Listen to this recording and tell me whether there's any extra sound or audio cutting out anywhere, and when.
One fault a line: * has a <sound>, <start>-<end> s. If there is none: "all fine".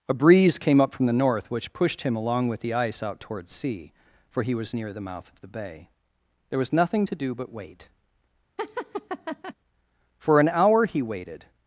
* has a laugh, 8.6-9.5 s